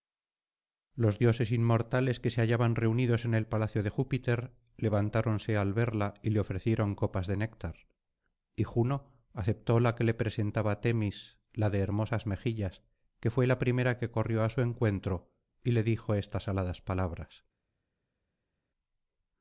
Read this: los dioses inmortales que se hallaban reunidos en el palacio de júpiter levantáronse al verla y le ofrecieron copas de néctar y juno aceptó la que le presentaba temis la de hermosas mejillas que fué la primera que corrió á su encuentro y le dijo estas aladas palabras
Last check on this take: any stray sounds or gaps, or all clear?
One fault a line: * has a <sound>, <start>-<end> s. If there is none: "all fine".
all fine